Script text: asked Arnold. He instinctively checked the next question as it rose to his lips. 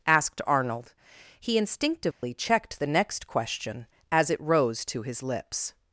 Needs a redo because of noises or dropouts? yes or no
yes